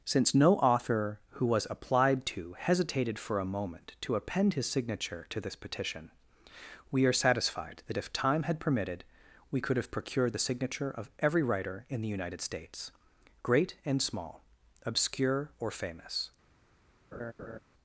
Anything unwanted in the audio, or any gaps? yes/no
yes